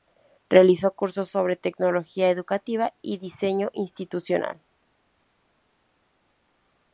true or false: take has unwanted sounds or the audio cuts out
false